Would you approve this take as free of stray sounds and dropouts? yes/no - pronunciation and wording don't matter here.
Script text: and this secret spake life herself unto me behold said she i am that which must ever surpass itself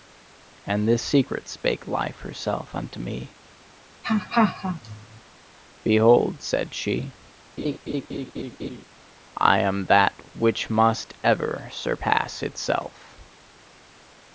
no